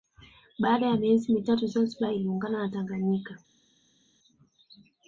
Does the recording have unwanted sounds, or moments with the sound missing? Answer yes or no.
no